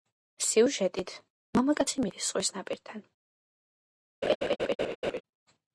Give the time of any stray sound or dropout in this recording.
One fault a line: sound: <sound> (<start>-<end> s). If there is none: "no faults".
sound: laugh (4.2-5.2 s)